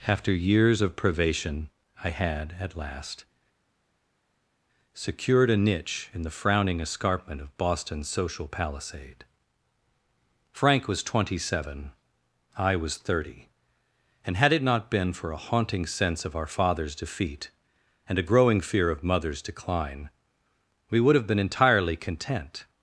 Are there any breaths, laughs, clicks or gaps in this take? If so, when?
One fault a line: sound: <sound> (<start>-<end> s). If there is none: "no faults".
no faults